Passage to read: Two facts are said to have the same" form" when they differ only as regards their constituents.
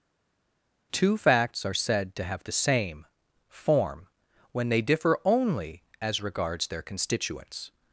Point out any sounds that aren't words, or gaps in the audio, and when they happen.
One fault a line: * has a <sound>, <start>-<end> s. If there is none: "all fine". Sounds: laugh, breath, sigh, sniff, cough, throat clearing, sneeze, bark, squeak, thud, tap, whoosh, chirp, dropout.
all fine